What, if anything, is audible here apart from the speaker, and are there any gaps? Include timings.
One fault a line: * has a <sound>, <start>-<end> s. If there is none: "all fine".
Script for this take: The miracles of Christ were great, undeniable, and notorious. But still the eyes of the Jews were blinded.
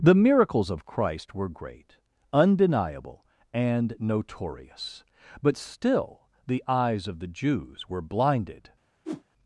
* has a whoosh, 9.0-9.2 s